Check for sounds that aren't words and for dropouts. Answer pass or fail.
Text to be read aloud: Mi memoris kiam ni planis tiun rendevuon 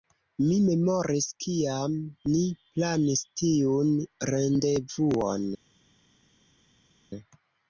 pass